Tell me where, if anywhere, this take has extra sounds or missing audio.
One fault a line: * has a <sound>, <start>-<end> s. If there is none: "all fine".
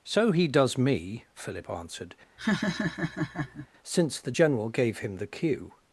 * has a laugh, 2.4-3.7 s